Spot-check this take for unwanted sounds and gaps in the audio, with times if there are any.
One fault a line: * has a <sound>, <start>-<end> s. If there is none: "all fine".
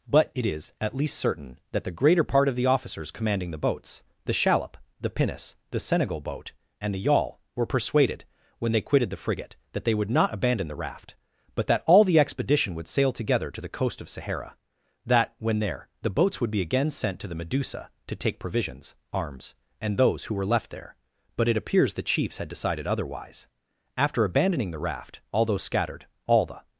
all fine